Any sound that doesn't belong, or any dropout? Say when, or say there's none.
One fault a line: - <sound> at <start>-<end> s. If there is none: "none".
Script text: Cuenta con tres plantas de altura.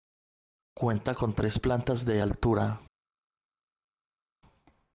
none